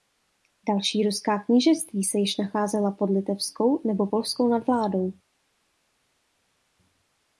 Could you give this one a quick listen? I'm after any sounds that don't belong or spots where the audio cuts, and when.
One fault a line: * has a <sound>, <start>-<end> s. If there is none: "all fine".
all fine